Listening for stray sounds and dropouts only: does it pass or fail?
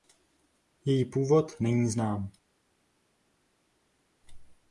pass